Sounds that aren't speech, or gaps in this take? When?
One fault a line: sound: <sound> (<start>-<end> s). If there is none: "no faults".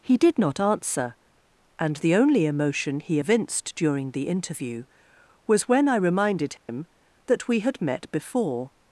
sound: dropout (6.6-6.7 s)